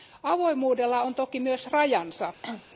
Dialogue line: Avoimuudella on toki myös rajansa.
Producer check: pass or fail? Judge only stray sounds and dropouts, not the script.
fail